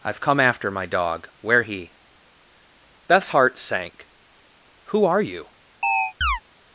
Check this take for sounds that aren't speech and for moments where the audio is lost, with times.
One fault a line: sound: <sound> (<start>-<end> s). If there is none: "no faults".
sound: chirp (5.8-6.4 s)